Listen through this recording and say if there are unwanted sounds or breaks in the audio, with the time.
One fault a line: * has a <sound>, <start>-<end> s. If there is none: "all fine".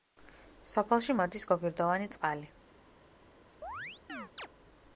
* has a chirp, 3.6-4.5 s